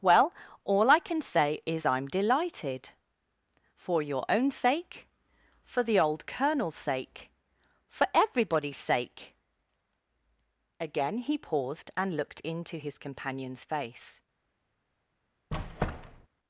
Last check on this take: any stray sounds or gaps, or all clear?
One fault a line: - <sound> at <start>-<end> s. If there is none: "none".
- squeak at 15.5-16.3 s